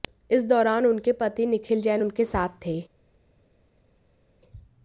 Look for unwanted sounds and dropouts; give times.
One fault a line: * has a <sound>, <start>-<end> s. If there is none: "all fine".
all fine